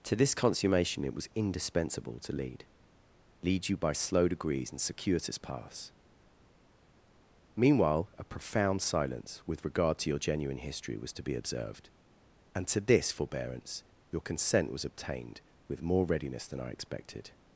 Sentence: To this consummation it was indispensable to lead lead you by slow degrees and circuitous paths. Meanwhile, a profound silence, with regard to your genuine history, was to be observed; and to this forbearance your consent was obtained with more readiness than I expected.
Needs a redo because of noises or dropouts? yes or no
no